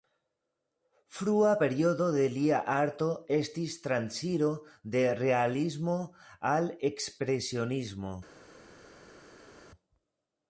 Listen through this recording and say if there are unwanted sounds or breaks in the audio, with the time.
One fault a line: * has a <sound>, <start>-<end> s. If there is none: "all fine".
all fine